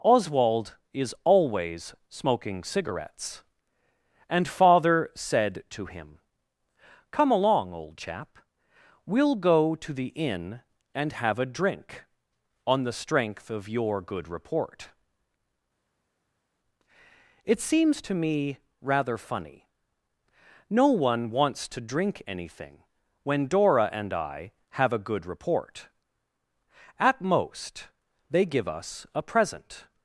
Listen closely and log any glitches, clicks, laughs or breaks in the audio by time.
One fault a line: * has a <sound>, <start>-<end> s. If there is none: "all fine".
all fine